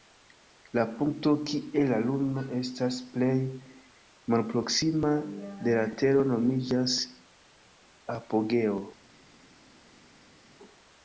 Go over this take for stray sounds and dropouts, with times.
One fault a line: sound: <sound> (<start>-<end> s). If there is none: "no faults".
no faults